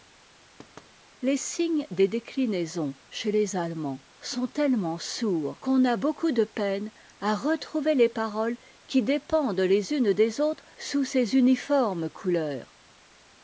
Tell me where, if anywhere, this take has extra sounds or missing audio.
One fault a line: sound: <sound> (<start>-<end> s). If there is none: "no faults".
sound: thud (0.6-0.9 s)